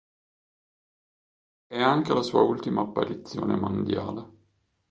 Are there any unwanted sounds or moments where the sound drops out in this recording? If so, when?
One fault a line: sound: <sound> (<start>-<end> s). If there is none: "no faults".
no faults